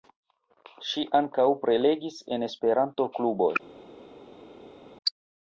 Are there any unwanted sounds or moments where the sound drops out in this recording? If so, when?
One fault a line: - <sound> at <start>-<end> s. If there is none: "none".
none